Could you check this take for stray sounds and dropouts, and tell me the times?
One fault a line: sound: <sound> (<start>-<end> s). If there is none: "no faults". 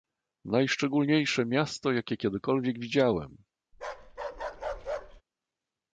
sound: bark (3.7-5.2 s)